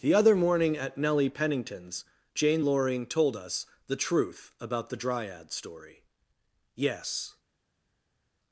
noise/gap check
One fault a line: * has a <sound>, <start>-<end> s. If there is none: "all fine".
all fine